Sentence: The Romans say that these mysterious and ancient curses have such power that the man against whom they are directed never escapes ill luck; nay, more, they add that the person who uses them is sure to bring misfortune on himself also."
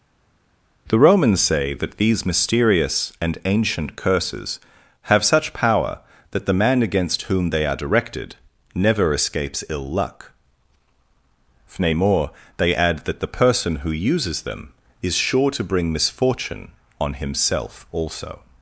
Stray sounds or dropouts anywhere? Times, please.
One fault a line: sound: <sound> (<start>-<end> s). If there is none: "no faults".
no faults